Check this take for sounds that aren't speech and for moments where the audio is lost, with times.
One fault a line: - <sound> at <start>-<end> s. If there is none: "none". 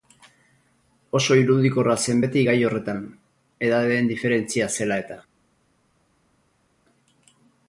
none